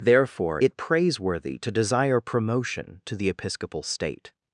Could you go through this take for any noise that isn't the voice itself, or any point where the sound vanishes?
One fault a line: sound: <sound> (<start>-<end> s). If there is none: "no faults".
no faults